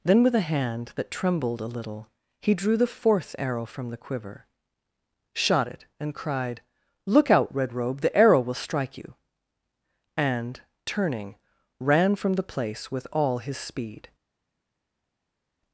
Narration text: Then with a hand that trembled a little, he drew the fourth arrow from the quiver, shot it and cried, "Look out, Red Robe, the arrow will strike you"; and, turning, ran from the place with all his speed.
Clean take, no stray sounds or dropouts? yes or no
yes